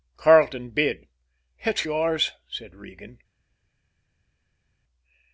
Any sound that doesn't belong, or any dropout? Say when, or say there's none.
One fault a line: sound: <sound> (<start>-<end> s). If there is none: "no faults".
no faults